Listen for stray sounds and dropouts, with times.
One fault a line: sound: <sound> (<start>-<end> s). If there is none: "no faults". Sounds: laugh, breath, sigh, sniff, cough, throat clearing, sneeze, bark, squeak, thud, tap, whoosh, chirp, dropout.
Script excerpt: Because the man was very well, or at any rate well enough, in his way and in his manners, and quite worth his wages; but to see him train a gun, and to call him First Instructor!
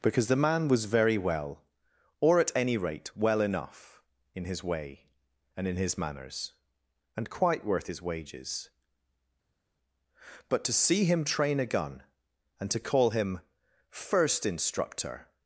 no faults